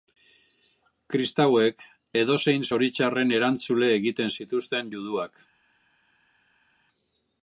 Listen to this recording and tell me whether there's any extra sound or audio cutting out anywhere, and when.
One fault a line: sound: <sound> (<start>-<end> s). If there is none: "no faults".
no faults